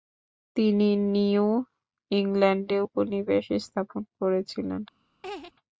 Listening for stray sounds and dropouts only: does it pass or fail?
fail